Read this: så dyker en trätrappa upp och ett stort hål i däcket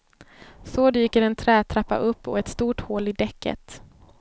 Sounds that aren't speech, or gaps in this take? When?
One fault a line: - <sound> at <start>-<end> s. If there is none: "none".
none